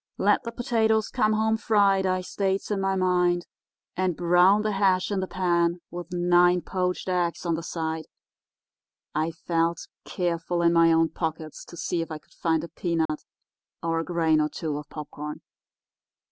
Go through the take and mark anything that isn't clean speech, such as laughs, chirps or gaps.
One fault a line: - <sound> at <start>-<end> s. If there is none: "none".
- dropout at 13.1-13.1 s